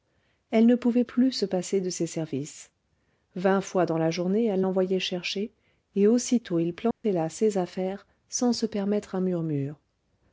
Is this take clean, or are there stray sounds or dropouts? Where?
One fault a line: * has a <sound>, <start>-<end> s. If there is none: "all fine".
* has a dropout, 6.9-7.0 s